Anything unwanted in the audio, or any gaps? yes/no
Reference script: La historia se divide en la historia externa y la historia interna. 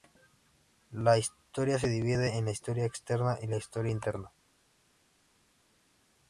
no